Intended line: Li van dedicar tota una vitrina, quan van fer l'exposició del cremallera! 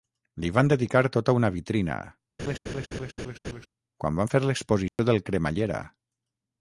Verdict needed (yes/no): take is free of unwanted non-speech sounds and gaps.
no